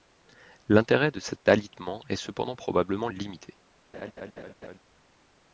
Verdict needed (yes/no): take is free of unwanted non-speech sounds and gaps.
no